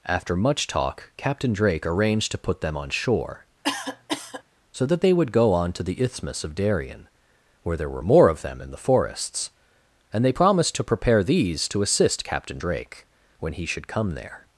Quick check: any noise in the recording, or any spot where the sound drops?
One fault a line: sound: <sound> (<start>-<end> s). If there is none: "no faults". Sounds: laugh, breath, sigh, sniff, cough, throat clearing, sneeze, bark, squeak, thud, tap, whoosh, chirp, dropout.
sound: cough (3.6-4.4 s)